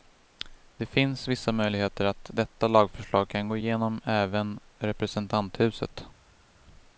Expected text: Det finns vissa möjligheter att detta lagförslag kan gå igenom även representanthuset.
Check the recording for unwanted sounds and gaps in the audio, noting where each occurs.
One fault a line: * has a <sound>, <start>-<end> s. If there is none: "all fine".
all fine